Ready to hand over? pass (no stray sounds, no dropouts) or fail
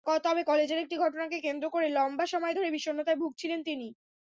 pass